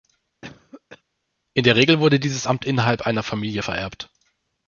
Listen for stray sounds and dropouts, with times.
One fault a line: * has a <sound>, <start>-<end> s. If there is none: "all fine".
* has a cough, 0.4-1.0 s